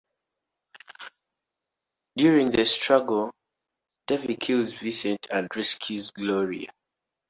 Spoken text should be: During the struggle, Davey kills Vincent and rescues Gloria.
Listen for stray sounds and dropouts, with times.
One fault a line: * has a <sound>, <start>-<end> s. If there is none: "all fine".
all fine